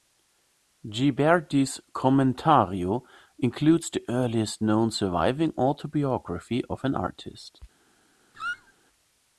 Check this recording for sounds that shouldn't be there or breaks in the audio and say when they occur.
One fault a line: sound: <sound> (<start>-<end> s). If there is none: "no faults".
sound: squeak (8.3-8.7 s)